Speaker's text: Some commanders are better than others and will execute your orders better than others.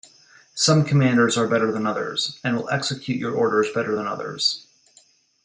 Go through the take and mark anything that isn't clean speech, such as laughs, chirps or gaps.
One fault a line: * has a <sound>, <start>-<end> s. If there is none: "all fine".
all fine